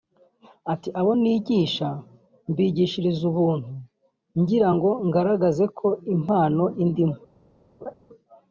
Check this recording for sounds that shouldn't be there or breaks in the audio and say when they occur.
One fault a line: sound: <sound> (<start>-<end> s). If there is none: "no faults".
sound: laugh (7.8-7.9 s)